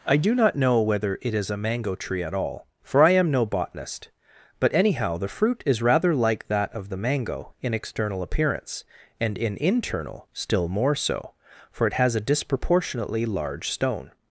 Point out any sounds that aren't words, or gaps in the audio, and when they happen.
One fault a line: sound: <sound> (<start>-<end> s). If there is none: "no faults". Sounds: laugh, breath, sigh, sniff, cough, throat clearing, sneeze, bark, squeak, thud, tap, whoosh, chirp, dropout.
no faults